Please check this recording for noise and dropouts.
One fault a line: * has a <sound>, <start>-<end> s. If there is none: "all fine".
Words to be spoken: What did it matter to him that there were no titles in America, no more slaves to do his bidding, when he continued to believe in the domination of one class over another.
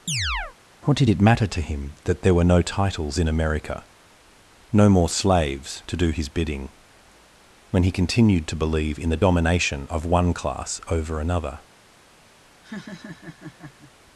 * has a chirp, 0.1-0.6 s
* has a laugh, 12.6-13.9 s